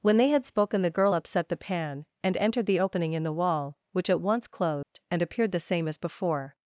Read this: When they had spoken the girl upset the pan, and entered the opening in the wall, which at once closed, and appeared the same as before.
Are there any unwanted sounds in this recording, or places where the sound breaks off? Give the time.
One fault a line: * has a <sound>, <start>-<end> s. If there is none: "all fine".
* has a dropout, 4.8-4.9 s